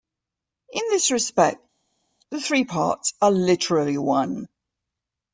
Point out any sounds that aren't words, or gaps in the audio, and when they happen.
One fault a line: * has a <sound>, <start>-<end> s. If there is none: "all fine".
all fine